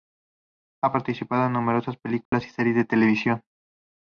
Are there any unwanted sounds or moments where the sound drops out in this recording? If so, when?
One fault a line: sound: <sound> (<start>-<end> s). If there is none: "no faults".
sound: dropout (2.3-2.3 s)